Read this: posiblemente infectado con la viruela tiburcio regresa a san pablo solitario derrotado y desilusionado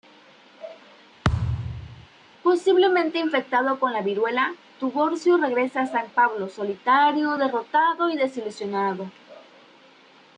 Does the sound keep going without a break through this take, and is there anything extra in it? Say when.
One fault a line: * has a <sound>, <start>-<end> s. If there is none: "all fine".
* has a thud, 1.2-2.1 s